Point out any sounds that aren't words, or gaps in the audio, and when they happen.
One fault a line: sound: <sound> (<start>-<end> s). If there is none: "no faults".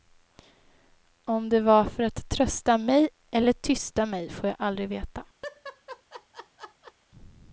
sound: laugh (5.4-6.9 s)